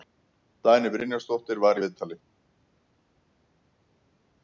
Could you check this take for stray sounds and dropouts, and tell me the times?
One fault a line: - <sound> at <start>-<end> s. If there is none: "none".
none